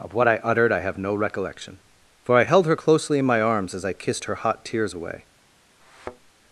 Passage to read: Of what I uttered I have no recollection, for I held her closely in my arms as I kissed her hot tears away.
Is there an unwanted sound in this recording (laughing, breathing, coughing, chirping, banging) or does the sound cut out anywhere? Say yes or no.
yes